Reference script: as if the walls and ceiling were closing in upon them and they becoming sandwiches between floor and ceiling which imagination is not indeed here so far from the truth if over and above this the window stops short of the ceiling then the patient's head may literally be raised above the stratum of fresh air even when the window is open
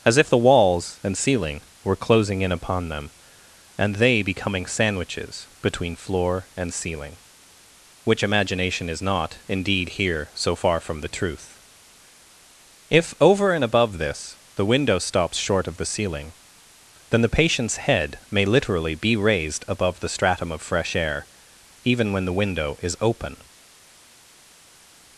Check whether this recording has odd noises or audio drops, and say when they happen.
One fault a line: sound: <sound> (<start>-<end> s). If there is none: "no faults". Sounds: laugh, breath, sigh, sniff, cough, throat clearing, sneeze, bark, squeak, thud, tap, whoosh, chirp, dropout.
no faults